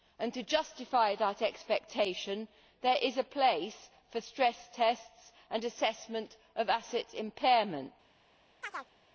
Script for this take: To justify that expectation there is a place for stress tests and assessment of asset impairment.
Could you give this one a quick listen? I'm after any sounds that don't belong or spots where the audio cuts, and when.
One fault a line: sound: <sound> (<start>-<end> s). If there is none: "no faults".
sound: chirp (8.6-8.9 s)